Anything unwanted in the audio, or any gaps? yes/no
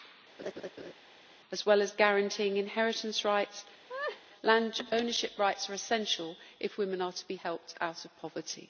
yes